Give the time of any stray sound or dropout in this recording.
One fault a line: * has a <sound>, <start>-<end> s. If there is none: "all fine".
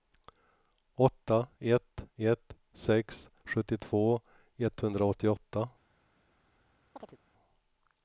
* has a chirp, 7.0-7.2 s